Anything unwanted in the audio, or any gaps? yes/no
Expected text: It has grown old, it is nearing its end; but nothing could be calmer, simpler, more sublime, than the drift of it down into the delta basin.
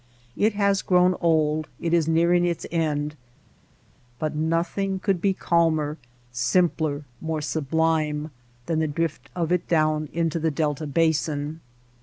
no